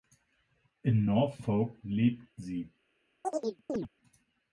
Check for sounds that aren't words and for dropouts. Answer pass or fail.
fail